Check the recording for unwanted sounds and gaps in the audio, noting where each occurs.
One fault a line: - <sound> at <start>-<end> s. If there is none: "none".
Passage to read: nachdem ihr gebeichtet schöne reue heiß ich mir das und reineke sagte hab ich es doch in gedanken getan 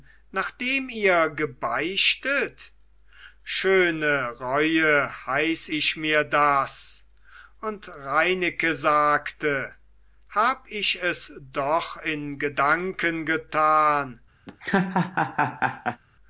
- laugh at 14.5-16.0 s